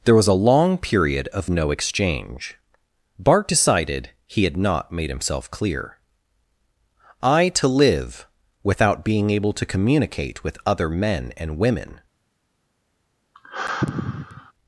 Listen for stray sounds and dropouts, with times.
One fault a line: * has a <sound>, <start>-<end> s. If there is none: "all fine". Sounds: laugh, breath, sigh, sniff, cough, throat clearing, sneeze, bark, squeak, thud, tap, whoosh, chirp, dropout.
* has a sigh, 13.3-14.5 s